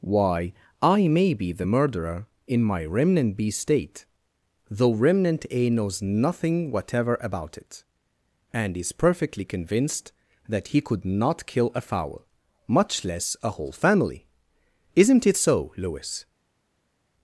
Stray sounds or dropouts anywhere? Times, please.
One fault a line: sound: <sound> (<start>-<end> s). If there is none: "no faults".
no faults